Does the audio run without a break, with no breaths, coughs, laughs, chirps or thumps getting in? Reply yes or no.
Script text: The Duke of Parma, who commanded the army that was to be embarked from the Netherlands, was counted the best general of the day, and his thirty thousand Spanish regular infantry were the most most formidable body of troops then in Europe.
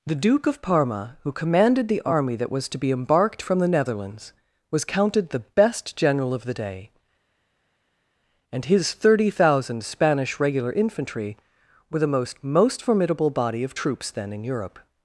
yes